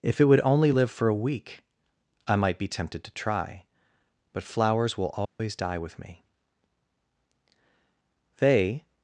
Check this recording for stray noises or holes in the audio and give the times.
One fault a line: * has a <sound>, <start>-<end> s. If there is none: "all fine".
* has a dropout, 5.2-5.4 s